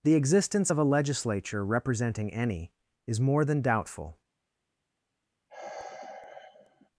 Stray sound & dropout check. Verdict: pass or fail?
fail